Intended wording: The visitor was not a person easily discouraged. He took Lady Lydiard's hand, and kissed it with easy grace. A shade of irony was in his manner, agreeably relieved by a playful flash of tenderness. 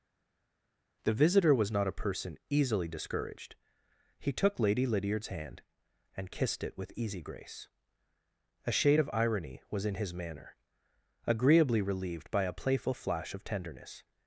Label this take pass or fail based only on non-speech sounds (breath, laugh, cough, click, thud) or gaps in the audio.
pass